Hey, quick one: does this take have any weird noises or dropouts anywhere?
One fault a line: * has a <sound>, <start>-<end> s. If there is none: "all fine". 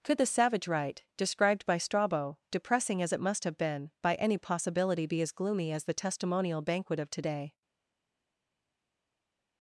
all fine